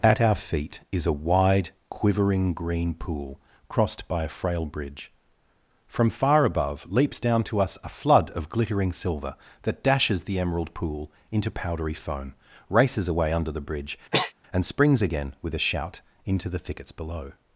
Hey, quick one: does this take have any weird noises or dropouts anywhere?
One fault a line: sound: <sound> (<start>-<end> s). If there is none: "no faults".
sound: sneeze (14.1-14.3 s)